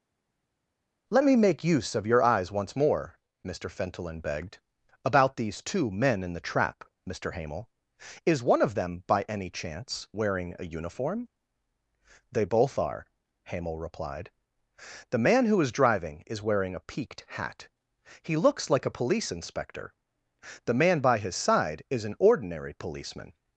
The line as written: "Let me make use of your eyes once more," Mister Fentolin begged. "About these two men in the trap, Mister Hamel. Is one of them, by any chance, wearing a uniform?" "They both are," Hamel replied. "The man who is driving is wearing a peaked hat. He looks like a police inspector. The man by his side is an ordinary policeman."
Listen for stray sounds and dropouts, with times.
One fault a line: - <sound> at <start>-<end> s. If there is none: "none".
none